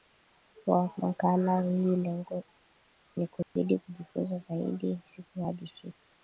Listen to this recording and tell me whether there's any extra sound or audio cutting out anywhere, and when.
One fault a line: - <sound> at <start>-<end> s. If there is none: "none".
- dropout at 3.4-3.6 s